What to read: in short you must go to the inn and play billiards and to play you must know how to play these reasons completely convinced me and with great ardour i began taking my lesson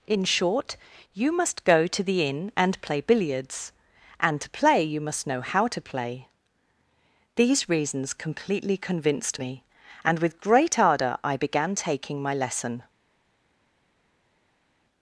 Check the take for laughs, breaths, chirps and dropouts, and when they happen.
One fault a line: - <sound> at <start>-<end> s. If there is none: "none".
none